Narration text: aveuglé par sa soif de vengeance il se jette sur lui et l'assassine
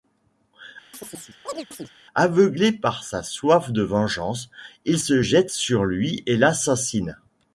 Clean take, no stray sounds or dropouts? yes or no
no